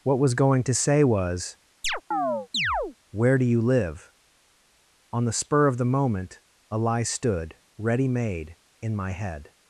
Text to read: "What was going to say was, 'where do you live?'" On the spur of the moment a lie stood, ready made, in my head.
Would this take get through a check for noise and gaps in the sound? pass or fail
fail